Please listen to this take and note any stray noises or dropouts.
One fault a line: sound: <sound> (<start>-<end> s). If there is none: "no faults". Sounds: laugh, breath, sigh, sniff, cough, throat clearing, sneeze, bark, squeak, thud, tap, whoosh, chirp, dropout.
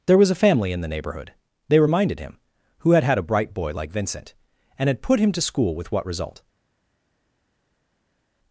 no faults